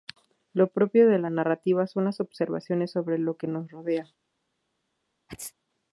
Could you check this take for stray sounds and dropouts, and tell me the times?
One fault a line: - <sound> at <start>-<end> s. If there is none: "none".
- sneeze at 5.3-5.5 s